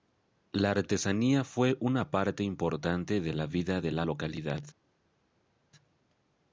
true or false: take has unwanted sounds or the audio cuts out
false